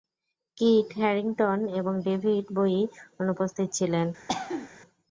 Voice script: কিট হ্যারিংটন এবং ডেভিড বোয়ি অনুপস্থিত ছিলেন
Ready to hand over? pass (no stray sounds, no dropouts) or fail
fail